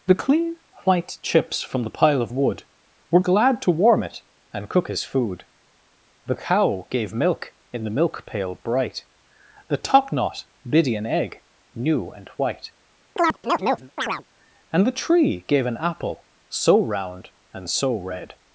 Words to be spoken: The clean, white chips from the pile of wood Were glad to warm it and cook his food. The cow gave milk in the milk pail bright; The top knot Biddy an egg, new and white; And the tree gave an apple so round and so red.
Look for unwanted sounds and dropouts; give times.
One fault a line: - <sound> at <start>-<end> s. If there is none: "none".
- chirp at 13.2-14.2 s